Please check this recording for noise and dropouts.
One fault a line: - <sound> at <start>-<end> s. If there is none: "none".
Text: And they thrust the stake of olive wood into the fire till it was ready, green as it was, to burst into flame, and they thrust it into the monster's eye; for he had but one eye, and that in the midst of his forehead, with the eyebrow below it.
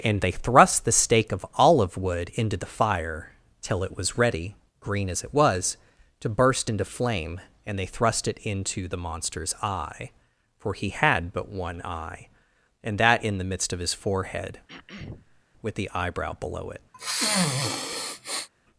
- throat clearing at 14.7-15.4 s
- sniff at 16.9-18.5 s